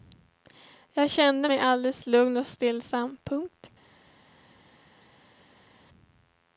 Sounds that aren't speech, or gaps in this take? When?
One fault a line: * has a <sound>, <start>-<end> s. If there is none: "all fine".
all fine